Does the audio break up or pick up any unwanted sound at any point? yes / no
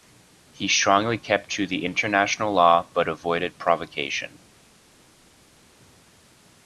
no